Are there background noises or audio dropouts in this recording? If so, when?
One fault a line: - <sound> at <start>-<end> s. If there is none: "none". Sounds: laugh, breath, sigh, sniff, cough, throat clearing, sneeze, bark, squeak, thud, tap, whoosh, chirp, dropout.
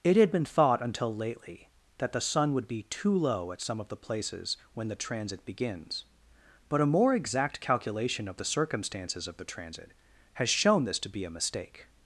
none